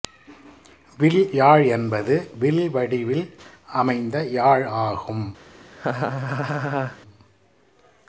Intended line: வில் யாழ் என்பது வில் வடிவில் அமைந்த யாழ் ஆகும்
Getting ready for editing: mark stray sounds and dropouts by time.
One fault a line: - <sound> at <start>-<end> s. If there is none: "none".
- laugh at 5.7-7.0 s